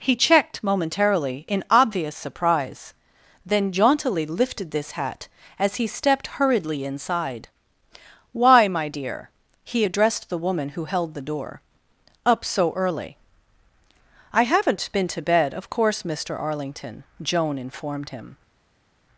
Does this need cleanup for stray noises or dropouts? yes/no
no